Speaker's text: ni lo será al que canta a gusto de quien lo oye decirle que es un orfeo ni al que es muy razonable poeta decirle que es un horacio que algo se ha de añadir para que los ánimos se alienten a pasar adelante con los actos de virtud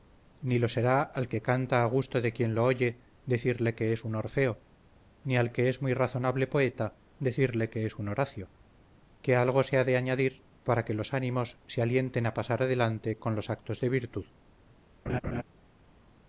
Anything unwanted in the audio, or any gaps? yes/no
yes